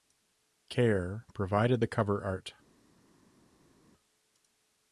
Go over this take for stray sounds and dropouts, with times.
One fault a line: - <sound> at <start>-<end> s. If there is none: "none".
none